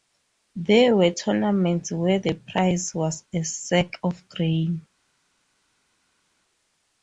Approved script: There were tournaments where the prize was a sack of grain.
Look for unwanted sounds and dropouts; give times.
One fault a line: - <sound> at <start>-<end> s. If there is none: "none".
none